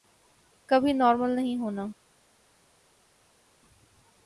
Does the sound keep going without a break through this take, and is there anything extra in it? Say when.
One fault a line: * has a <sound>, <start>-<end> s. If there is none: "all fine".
all fine